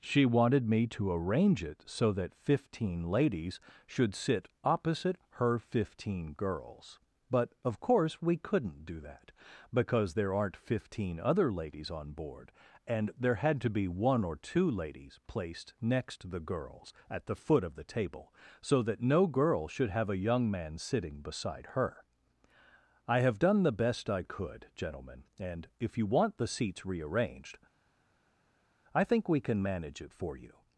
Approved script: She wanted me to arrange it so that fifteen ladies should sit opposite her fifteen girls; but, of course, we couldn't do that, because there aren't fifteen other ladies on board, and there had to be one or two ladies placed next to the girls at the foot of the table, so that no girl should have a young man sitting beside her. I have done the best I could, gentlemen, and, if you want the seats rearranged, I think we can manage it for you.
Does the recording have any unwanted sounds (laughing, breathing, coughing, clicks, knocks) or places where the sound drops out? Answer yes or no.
no